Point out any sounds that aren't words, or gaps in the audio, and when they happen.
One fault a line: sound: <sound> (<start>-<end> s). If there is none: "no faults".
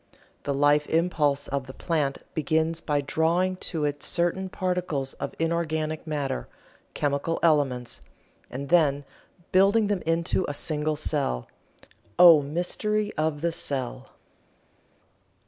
no faults